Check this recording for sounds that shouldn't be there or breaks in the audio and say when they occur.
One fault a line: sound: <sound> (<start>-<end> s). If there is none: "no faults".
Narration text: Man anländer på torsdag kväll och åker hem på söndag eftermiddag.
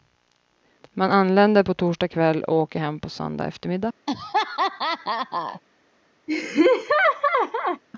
sound: laugh (4.1-5.6 s)
sound: laugh (6.3-7.8 s)